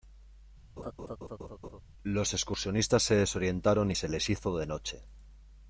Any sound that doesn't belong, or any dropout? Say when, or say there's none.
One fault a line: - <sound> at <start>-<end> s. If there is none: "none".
- laugh at 0.8-1.8 s